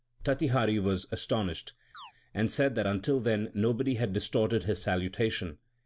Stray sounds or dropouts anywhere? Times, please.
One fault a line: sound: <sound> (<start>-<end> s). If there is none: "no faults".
sound: chirp (1.9-2.1 s)